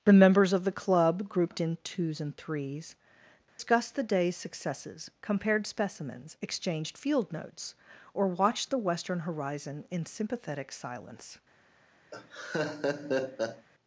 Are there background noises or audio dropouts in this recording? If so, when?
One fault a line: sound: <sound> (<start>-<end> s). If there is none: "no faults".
sound: dropout (3.5-3.6 s)
sound: laugh (12.1-13.7 s)